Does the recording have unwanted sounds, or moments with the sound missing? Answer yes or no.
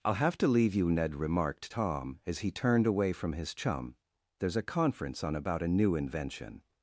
no